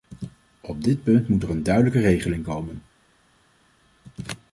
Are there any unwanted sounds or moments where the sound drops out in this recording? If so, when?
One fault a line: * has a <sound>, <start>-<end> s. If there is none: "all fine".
all fine